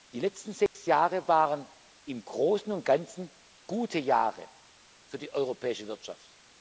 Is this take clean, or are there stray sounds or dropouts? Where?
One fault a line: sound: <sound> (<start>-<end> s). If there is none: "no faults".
sound: dropout (0.7-0.7 s)